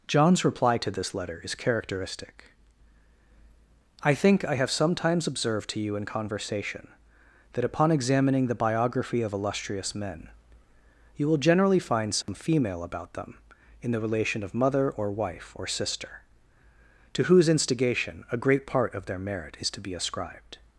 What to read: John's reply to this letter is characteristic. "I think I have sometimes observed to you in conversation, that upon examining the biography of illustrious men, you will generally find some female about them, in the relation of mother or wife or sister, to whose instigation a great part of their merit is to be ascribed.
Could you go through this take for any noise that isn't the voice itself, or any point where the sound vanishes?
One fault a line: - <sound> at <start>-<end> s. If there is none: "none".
- dropout at 12.2-12.3 s